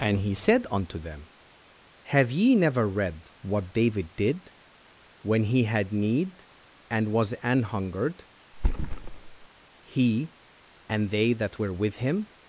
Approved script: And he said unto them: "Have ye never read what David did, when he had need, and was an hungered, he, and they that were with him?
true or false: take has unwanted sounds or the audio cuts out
true